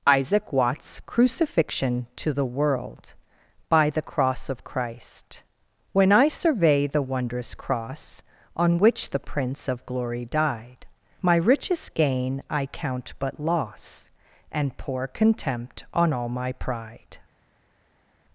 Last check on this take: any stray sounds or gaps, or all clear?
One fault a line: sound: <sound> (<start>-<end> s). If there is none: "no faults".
no faults